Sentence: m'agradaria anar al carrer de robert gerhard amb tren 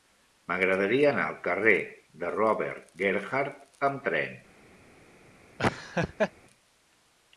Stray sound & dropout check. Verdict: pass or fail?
fail